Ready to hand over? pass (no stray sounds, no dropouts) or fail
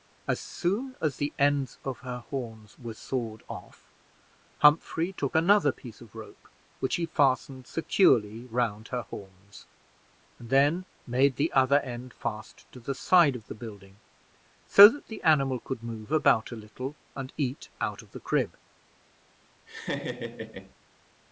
fail